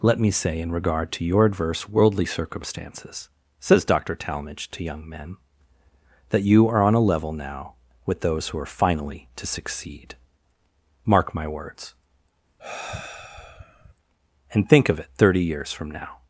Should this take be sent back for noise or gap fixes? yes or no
yes